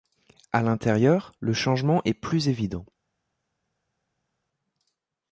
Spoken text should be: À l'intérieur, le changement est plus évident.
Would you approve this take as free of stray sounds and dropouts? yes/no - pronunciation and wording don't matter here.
yes